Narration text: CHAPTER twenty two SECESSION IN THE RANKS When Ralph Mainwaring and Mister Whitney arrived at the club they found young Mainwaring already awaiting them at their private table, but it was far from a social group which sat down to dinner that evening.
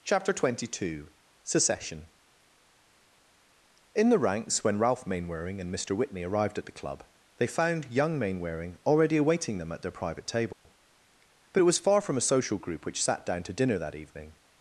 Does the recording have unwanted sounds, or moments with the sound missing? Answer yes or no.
yes